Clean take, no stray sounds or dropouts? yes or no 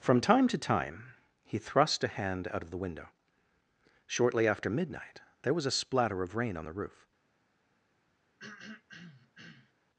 no